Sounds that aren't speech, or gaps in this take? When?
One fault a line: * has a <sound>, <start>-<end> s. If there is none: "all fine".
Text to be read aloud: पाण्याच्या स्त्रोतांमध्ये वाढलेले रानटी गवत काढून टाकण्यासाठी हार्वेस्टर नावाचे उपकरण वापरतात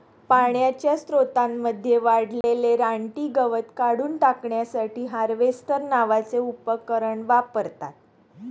* has a dropout, 2.4-2.4 s